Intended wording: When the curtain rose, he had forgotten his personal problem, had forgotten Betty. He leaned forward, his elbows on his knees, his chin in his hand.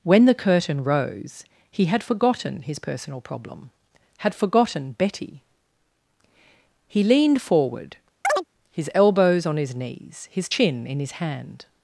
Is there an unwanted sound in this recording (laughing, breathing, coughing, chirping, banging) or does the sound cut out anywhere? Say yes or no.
yes